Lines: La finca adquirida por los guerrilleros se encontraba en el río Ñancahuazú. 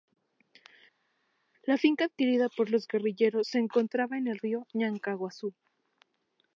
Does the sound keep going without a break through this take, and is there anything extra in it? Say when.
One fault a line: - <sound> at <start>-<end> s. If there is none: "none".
none